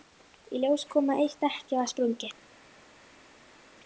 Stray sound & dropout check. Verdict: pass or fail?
pass